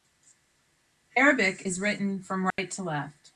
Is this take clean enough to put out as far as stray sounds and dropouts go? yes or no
no